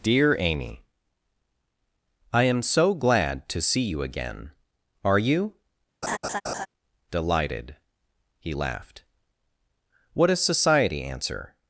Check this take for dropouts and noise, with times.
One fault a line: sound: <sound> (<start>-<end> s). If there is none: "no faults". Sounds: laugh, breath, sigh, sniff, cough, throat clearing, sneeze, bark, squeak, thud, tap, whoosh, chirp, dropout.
sound: laugh (6.0-6.7 s)